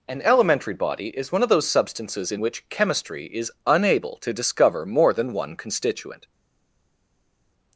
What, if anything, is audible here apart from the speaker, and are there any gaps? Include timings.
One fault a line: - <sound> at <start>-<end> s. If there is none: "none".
none